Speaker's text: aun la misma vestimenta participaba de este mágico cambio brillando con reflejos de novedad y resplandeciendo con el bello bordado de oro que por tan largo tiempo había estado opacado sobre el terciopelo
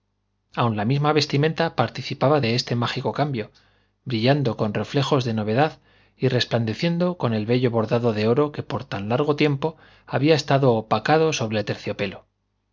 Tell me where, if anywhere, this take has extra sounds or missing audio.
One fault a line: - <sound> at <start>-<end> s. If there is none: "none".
none